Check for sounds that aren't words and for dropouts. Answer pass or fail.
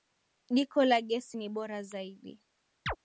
fail